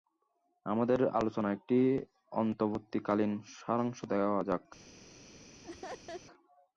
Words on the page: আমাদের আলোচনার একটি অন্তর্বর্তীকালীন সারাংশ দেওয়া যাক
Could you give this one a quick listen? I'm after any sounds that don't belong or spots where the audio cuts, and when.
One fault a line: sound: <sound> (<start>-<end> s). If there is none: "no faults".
sound: laugh (5.6-6.2 s)